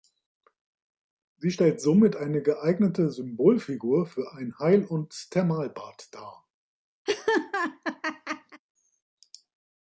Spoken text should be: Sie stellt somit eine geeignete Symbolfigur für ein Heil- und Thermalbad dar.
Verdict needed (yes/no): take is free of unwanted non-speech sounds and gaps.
no